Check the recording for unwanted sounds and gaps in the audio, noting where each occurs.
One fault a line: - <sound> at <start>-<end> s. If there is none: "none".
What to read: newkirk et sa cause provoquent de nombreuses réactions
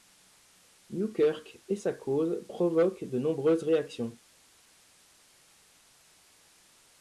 none